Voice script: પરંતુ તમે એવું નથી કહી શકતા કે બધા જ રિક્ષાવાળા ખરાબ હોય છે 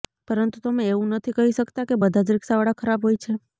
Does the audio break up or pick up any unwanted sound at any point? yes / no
no